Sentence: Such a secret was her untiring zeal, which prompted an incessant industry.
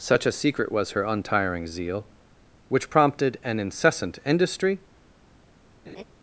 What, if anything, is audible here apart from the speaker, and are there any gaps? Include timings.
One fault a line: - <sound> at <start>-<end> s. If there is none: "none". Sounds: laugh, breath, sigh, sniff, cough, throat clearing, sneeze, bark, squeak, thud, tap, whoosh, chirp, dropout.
- laugh at 5.9-6.0 s